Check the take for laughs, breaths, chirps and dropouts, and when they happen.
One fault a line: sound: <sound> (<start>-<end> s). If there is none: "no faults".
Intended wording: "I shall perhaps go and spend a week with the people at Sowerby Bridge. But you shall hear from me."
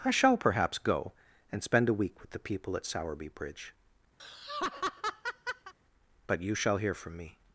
sound: laugh (4.2-5.7 s)